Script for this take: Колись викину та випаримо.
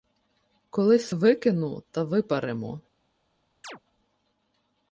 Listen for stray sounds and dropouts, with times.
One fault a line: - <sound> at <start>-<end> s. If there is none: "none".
- chirp at 3.6-3.8 s